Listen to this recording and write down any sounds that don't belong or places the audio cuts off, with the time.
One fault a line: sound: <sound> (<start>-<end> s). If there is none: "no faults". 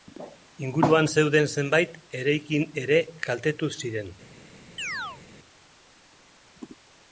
sound: chirp (4.8-5.2 s)